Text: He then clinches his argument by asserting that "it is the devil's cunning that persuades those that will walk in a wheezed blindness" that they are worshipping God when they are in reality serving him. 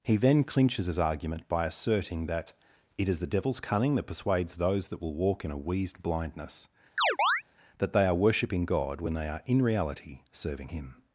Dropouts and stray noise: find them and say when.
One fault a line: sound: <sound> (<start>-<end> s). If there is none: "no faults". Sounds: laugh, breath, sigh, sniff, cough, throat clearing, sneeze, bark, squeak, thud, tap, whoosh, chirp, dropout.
sound: chirp (7.0-7.4 s)